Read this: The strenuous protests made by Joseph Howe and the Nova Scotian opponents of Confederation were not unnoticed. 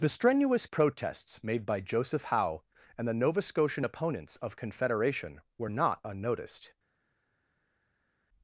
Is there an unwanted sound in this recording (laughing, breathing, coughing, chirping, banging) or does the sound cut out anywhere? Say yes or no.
no